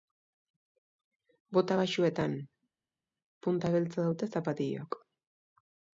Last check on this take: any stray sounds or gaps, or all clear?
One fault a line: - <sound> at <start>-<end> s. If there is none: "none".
none